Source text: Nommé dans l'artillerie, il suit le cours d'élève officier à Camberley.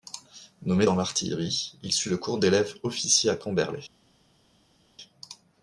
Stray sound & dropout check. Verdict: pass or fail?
pass